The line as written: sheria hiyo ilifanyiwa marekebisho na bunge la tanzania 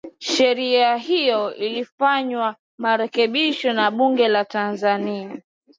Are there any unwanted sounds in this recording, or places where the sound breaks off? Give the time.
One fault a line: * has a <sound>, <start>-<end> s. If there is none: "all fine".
all fine